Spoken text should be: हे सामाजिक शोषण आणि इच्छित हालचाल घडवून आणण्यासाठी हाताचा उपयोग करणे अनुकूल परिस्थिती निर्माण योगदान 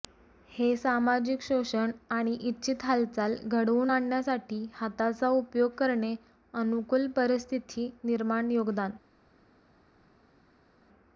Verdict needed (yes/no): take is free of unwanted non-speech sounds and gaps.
yes